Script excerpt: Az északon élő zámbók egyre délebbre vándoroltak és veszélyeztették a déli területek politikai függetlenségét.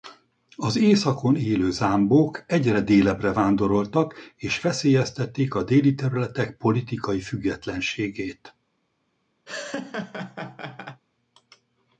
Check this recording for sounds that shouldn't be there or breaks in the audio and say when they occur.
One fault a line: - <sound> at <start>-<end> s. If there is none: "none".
- laugh at 9.5-11.0 s